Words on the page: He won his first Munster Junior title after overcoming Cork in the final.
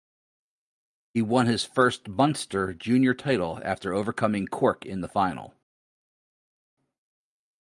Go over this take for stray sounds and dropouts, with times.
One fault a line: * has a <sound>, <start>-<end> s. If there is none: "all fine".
all fine